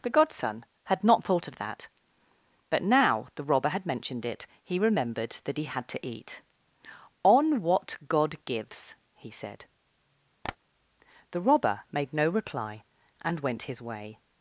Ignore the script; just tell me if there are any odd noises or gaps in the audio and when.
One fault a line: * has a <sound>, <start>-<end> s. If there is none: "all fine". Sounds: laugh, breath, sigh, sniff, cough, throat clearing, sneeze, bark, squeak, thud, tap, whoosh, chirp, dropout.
* has a tap, 10.4-10.6 s